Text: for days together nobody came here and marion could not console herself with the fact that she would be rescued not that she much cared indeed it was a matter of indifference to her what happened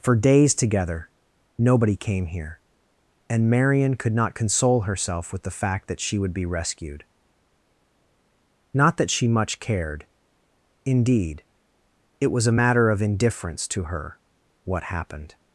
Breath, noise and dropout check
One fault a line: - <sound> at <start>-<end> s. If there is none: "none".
none